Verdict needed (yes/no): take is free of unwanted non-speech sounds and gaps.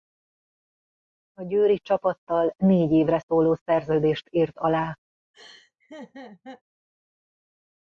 no